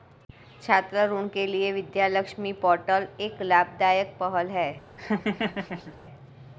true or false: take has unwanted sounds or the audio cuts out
true